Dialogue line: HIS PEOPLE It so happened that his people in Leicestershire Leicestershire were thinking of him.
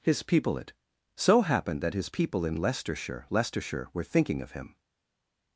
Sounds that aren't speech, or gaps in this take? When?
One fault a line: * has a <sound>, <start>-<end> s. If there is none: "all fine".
all fine